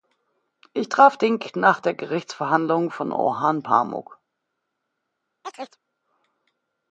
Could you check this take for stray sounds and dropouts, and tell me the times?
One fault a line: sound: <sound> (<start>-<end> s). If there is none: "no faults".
sound: chirp (5.4-5.8 s)